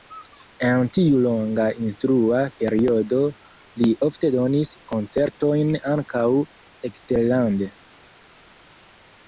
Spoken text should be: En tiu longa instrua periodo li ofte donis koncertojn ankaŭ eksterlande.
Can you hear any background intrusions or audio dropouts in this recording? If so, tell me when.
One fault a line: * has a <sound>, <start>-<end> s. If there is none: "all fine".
all fine